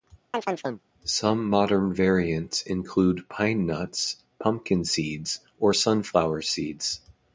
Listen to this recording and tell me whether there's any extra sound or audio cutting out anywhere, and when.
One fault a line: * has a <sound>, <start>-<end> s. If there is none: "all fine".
* has a chirp, 0.3-0.8 s